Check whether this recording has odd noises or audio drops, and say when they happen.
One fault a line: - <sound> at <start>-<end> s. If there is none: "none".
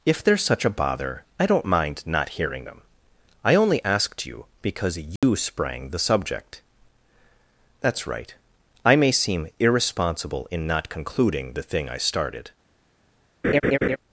- dropout at 5.2-5.2 s
- laugh at 13.4-14.0 s